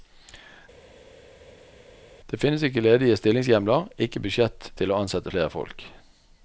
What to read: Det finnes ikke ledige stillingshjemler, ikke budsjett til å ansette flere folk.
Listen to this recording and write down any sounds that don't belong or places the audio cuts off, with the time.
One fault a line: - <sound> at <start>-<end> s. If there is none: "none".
none